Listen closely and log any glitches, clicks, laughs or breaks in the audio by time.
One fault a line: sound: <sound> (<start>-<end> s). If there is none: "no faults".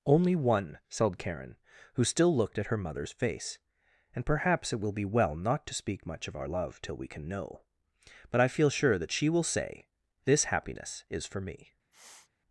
sound: sniff (11.9-12.3 s)